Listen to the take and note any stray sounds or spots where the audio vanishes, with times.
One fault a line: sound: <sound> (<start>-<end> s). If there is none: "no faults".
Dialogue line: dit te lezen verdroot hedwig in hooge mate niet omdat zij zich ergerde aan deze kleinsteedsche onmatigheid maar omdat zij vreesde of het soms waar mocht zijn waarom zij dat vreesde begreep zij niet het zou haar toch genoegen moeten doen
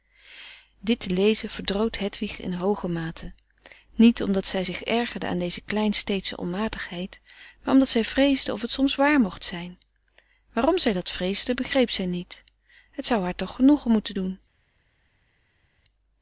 no faults